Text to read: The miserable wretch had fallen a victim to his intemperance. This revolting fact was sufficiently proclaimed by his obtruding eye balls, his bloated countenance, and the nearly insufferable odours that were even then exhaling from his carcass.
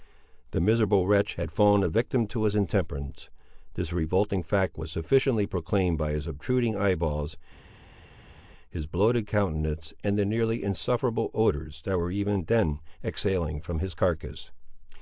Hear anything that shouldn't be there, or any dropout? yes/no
no